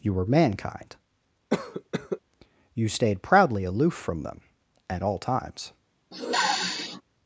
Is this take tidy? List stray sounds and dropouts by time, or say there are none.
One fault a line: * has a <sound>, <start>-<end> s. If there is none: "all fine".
* has a cough, 1.5-2.2 s
* has a sniff, 6.1-7.0 s